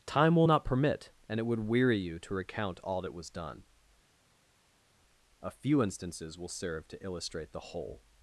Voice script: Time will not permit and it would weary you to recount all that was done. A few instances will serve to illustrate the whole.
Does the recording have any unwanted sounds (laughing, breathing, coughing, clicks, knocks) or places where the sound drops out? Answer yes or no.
no